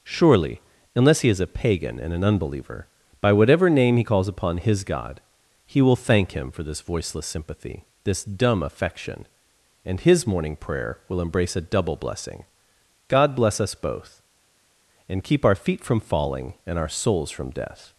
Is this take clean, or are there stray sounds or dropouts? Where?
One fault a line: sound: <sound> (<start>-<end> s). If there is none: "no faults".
no faults